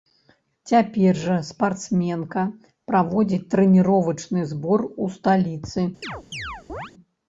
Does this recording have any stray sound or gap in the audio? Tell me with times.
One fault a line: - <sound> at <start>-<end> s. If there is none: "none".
- chirp at 6.0-6.9 s